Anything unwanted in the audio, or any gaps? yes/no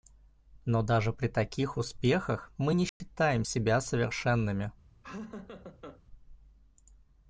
yes